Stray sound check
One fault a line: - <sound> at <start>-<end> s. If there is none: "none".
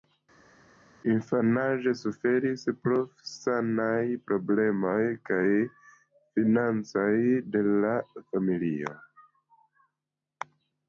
none